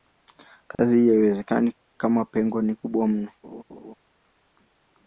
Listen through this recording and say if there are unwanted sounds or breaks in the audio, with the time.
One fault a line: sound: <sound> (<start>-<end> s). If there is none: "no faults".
sound: dropout (0.8-0.8 s)
sound: laugh (3.4-3.9 s)